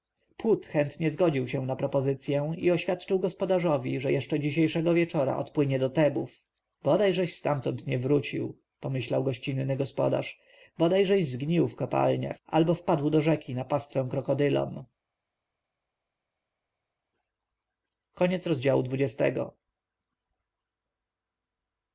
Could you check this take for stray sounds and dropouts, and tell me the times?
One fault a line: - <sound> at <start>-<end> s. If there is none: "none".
none